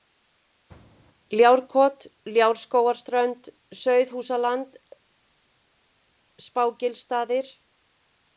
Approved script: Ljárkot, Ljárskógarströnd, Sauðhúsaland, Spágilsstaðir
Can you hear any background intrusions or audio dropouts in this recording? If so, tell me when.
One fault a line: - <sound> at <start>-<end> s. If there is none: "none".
none